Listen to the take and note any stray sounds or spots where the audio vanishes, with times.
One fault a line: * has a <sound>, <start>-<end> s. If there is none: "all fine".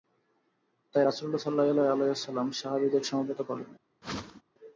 * has a whoosh, 4.0-4.4 s